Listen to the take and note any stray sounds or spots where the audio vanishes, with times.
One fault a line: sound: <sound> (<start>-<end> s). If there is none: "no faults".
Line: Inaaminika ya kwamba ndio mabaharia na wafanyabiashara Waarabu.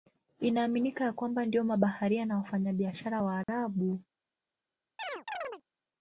sound: dropout (3.4-3.5 s)
sound: chirp (5.0-5.6 s)